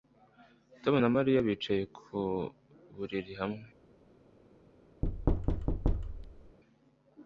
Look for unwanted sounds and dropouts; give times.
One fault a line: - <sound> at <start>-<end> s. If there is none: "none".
- thud at 5.0-6.6 s